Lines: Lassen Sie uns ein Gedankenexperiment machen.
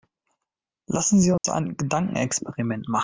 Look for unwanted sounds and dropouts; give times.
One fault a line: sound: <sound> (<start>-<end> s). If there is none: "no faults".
sound: dropout (1.4-1.4 s)